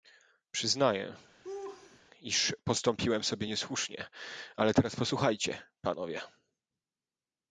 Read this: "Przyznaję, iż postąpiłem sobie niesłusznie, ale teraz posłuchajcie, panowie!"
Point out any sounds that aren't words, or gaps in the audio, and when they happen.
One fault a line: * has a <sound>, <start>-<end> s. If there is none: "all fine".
* has a laugh, 1.4-2.0 s